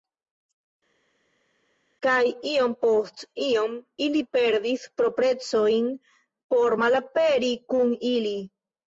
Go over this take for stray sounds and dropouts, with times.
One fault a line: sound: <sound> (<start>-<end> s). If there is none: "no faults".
no faults